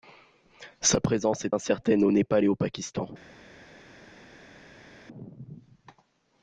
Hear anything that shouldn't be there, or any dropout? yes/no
no